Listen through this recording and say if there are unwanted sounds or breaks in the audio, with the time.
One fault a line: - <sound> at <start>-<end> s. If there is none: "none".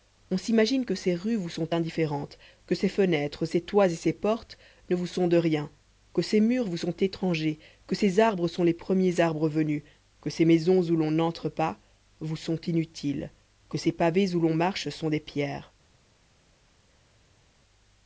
none